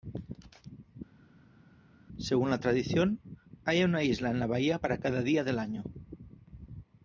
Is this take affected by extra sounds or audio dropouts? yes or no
no